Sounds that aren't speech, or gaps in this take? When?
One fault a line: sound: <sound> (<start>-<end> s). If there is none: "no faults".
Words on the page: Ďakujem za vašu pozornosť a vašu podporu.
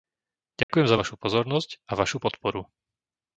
sound: dropout (0.6-0.7 s)